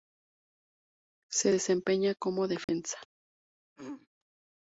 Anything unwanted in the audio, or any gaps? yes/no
yes